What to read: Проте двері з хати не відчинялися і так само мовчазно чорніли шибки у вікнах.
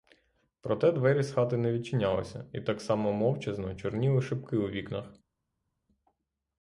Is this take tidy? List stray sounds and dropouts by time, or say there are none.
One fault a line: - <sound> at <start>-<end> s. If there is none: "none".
none